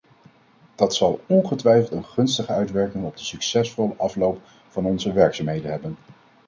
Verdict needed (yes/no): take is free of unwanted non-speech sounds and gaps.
yes